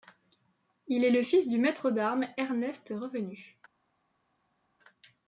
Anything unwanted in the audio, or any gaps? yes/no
no